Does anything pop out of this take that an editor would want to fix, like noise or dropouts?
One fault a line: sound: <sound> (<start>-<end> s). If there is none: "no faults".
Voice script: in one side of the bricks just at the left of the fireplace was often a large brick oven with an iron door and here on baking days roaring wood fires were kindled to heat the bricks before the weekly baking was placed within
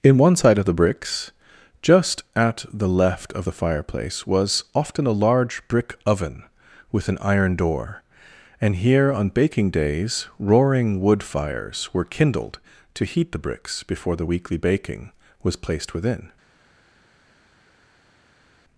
no faults